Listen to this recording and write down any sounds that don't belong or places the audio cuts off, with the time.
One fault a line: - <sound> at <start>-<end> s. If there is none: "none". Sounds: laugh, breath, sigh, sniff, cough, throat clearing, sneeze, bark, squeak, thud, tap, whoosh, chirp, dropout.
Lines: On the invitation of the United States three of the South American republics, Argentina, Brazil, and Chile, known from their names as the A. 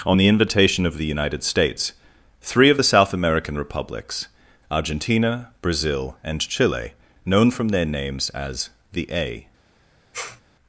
- sneeze at 10.1-10.4 s